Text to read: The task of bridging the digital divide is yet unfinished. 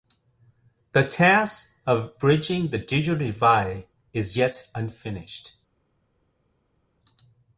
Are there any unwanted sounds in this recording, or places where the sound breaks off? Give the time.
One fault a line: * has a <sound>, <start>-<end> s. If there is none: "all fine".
all fine